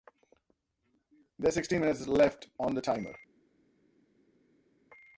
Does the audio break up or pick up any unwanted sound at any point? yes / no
no